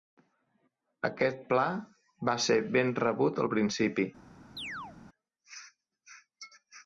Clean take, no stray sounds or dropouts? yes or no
no